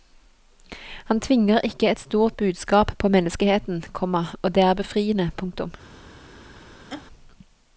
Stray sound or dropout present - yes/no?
yes